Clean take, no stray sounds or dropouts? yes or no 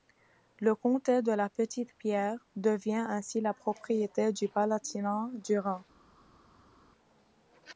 yes